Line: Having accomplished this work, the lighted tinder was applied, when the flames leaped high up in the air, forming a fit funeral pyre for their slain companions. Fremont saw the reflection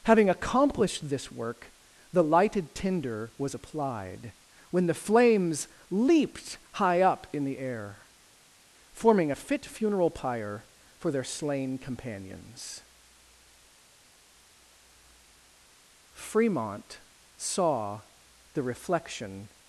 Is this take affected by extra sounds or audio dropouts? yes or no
no